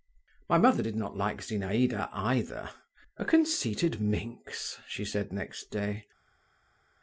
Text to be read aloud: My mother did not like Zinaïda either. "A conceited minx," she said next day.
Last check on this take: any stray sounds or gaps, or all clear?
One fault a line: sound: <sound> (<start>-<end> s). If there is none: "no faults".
no faults